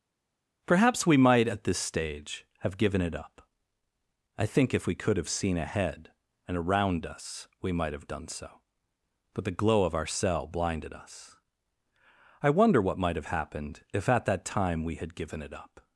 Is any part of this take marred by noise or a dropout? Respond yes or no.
no